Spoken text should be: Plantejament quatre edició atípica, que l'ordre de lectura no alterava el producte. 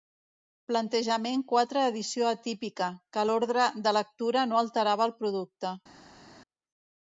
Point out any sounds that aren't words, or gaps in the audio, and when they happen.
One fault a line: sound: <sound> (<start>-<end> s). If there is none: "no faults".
no faults